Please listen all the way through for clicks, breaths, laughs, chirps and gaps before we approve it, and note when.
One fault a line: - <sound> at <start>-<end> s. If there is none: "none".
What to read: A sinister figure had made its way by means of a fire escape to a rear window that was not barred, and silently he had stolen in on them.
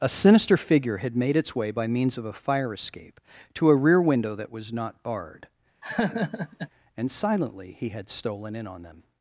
- laugh at 5.8-6.7 s